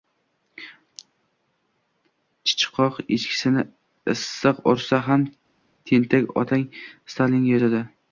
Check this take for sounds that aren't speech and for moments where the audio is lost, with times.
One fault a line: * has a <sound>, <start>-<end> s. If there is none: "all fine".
all fine